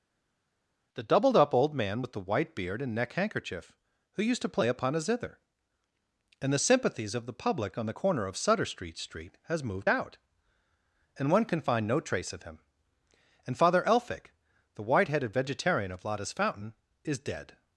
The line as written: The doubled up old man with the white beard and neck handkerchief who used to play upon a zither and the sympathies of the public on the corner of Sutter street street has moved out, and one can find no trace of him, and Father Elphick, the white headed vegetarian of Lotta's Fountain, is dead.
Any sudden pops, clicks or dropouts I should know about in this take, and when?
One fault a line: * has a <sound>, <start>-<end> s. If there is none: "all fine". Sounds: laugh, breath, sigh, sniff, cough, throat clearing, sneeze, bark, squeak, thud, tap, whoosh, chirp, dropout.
all fine